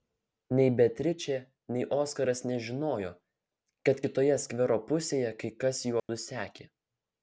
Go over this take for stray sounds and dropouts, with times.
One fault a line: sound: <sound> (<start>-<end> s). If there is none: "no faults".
sound: dropout (6.0-6.1 s)